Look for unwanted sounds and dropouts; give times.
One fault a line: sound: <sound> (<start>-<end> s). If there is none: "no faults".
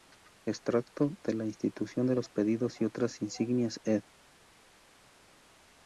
no faults